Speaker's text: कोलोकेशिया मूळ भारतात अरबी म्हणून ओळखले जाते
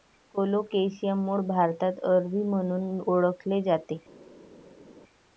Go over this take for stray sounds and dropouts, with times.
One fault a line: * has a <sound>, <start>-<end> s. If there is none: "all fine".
all fine